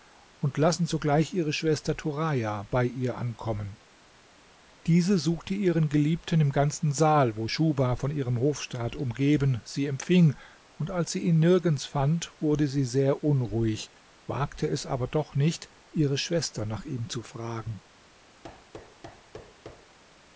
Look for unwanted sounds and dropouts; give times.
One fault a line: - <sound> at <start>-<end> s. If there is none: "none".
- thud at 18.4-20.0 s